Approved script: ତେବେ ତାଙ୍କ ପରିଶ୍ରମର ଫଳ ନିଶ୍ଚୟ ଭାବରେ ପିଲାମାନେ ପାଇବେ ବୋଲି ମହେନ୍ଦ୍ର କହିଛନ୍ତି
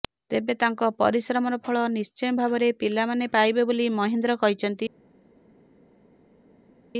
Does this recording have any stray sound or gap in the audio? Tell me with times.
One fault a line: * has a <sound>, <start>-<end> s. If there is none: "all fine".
all fine